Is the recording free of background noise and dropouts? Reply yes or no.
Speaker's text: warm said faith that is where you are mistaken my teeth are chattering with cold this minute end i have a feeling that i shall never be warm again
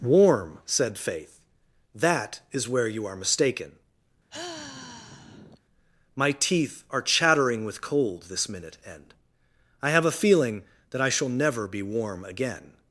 no